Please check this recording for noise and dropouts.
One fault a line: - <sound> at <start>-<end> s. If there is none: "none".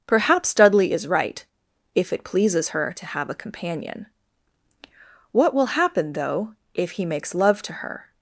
none